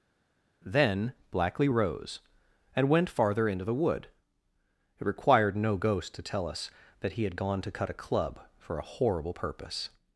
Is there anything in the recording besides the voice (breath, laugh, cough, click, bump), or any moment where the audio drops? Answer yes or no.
no